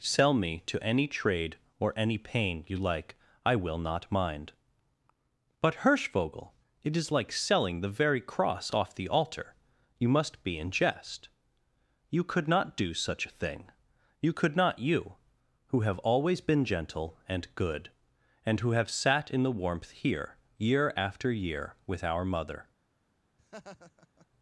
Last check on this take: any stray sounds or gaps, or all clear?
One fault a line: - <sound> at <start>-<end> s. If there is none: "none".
- laugh at 23.4-24.3 s